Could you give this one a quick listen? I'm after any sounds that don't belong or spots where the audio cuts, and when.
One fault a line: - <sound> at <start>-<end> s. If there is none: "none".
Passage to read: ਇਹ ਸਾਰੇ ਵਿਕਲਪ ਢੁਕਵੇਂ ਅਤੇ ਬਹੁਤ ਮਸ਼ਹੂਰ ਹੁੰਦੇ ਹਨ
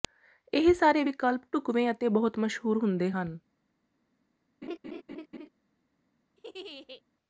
- laugh at 4.6-5.5 s
- laugh at 6.4-7.0 s